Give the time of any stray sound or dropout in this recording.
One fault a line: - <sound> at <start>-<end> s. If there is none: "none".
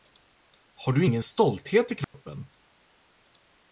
- dropout at 2.0-2.1 s